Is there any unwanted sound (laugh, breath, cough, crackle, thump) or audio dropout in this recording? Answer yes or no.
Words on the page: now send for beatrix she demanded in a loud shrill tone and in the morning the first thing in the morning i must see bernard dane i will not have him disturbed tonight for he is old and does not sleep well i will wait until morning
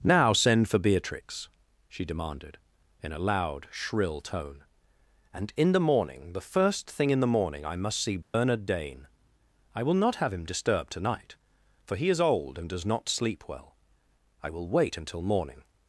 yes